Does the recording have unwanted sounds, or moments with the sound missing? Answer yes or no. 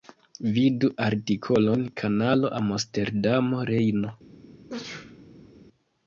yes